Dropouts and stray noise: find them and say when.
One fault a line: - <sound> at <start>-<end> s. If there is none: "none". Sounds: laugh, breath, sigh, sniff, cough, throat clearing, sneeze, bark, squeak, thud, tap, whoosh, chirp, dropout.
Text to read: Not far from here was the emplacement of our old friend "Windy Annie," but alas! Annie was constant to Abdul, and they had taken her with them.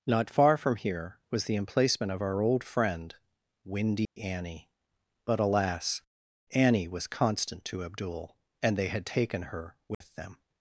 - dropout at 4.0-4.2 s
- dropout at 9.9-10.0 s